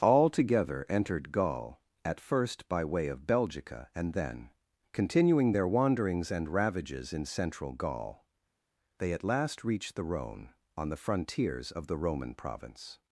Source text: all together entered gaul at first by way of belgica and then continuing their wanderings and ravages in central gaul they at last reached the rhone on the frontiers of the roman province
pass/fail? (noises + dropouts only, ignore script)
pass